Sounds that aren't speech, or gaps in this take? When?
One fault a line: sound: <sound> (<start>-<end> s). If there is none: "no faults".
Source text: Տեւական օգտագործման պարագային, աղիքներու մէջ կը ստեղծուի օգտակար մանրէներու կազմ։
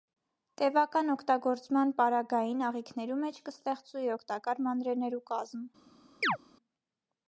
sound: chirp (6.2-6.4 s)